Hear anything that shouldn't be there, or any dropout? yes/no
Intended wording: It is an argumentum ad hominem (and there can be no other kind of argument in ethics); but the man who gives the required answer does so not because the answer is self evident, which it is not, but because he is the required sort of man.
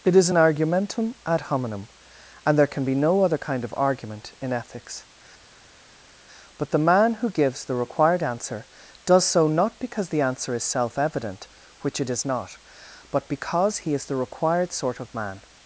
no